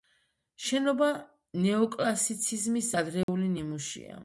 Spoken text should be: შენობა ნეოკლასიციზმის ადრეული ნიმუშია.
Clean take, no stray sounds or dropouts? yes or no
no